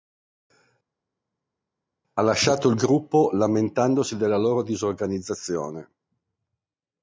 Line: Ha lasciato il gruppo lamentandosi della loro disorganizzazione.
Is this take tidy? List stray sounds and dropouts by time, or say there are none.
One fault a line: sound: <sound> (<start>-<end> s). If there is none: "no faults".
no faults